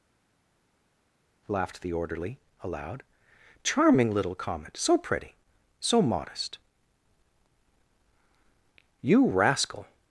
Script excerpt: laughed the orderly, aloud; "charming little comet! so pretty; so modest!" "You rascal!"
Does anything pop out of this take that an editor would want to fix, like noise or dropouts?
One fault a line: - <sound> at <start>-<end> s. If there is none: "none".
none